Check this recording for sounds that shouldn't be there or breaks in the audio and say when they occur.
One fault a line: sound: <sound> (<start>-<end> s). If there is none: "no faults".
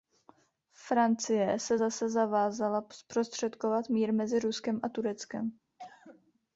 sound: cough (5.8-6.3 s)